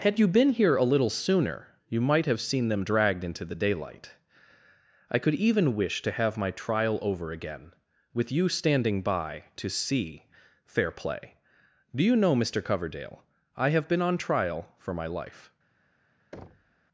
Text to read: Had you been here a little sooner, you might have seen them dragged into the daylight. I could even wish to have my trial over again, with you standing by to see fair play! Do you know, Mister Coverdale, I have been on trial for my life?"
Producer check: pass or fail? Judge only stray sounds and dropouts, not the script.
fail